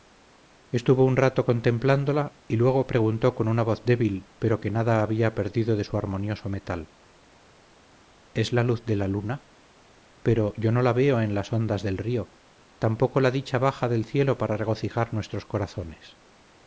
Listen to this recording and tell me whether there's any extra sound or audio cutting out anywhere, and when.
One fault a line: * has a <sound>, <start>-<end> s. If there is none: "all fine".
all fine